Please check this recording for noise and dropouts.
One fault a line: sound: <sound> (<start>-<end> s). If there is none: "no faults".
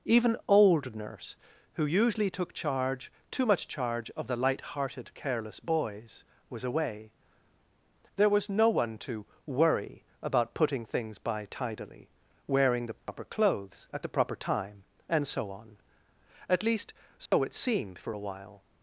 sound: dropout (13.0-13.1 s)
sound: dropout (17.3-17.3 s)